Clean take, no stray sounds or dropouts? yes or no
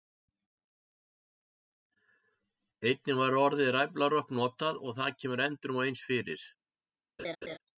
no